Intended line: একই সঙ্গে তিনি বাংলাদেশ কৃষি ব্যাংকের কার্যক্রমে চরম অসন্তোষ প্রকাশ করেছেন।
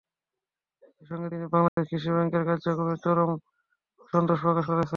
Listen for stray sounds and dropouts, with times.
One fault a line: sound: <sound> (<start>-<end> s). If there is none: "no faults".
sound: dropout (1.7-1.8 s)